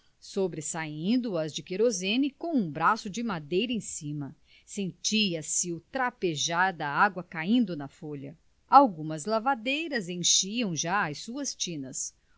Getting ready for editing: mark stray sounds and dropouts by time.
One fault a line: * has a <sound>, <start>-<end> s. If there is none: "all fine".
all fine